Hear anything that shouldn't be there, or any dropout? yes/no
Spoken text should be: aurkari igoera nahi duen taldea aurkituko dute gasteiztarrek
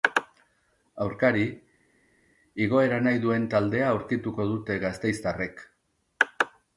no